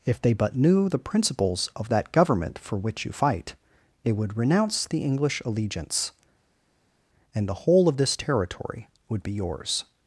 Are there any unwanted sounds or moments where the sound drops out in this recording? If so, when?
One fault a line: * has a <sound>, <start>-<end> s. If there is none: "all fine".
all fine